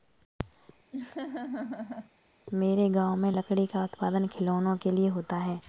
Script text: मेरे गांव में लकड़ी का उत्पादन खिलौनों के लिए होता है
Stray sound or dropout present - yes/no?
yes